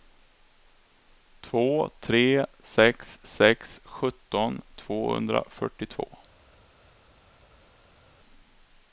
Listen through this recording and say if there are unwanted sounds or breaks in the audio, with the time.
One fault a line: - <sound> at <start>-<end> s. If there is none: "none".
none